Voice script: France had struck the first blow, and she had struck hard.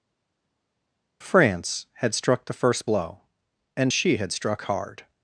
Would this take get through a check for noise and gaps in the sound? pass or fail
pass